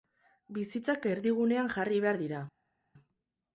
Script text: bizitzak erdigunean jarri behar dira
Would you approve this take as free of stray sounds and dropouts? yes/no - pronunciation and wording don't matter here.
yes